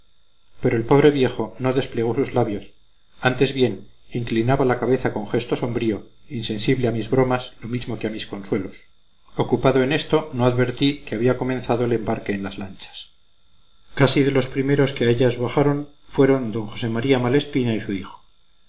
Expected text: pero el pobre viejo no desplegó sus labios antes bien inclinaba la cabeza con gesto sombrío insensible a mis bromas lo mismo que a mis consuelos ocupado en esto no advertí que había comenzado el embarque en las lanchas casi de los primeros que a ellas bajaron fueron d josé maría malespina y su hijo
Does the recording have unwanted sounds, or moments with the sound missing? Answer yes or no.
no